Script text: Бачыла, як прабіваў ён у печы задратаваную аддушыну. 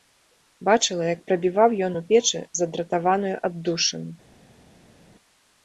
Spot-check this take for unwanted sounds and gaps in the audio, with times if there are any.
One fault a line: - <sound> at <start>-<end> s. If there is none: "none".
none